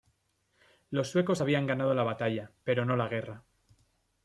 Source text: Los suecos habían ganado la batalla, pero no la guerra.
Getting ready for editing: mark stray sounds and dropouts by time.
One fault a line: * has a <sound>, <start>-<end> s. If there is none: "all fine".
all fine